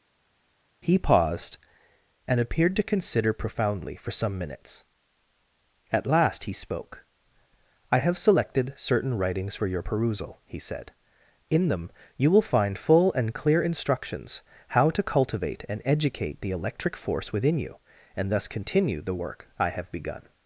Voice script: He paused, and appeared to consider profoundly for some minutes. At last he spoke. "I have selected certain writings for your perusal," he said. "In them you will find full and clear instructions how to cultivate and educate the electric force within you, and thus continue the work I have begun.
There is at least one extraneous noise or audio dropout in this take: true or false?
false